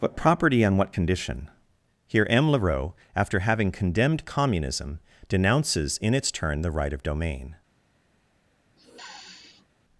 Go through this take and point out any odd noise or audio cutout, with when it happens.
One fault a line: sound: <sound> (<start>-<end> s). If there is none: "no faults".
sound: sniff (8.8-9.7 s)